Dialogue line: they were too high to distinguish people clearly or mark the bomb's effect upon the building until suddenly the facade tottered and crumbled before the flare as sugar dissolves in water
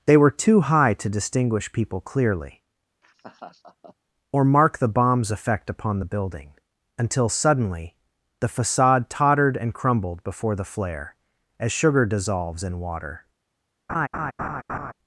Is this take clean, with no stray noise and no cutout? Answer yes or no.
no